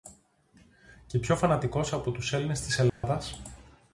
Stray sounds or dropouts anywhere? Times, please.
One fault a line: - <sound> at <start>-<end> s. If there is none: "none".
- dropout at 2.9-3.0 s